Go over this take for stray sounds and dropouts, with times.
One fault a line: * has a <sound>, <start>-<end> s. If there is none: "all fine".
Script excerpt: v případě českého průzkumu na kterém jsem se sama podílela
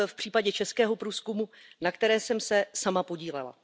all fine